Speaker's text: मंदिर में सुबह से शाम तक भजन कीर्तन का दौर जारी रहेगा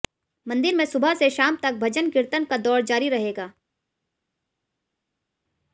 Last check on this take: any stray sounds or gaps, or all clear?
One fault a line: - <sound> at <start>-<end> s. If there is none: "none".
none